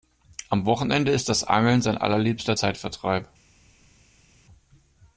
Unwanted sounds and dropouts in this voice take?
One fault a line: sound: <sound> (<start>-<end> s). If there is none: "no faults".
no faults